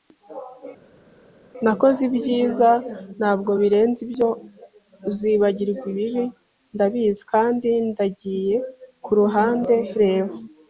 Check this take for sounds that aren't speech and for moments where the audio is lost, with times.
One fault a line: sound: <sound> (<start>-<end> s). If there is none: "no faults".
no faults